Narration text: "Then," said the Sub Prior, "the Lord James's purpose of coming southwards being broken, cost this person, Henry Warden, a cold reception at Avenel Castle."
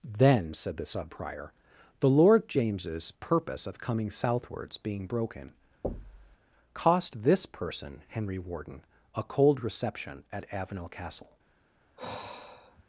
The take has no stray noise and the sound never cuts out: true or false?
false